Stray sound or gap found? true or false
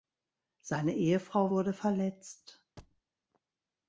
true